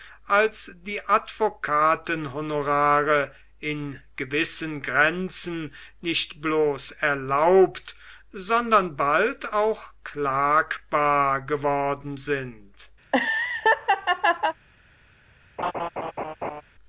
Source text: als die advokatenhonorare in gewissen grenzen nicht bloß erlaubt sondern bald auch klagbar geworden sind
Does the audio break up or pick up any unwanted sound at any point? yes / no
yes